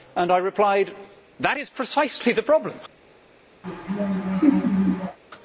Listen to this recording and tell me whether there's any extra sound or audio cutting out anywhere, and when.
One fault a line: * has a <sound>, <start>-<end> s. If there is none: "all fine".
* has a laugh, 3.6-5.2 s